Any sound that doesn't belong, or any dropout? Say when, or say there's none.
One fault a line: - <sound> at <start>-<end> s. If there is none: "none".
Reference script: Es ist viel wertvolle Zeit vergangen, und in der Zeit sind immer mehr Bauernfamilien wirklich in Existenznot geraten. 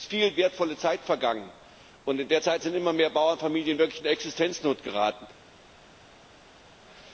none